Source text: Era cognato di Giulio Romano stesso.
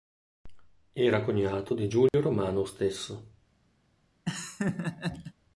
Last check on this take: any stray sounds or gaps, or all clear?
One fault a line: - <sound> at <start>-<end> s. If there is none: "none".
- dropout at 2.1-2.1 s
- laugh at 4.3-5.3 s